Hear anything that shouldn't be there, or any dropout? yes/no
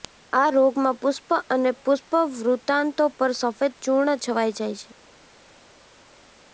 no